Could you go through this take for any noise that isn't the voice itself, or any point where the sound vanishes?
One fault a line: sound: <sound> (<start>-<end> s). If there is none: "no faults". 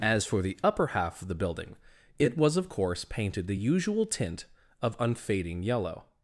no faults